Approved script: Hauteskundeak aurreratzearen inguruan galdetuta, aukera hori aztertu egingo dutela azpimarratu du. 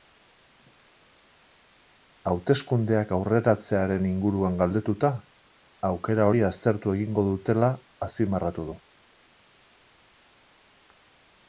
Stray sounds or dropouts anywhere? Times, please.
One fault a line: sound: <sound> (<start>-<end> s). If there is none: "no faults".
no faults